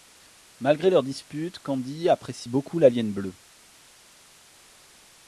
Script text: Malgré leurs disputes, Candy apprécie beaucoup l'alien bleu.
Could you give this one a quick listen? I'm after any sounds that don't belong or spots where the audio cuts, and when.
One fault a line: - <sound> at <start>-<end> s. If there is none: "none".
none